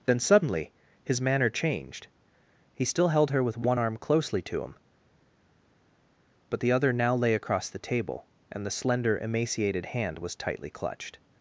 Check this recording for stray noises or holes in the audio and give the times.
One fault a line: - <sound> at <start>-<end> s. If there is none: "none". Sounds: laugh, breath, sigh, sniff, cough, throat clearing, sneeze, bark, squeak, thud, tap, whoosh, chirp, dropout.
none